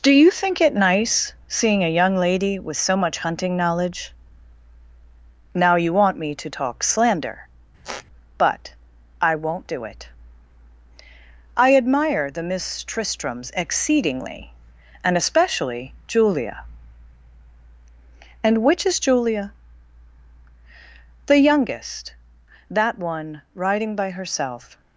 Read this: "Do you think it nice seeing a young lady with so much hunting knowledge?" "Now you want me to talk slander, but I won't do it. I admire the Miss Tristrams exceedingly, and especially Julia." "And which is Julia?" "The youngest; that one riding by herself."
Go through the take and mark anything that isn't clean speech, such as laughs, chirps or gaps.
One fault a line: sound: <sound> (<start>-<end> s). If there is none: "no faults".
sound: squeak (7.8-8.1 s)